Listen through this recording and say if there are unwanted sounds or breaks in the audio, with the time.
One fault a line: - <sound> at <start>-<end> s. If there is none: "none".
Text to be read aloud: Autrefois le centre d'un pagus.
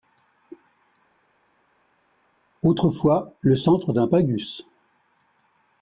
none